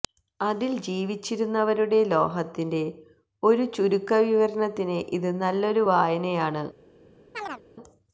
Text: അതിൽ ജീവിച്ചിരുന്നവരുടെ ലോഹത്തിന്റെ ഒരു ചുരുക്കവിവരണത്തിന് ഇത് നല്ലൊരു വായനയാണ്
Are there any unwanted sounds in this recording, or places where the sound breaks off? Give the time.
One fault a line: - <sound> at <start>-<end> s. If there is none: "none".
- chirp at 7.3-7.6 s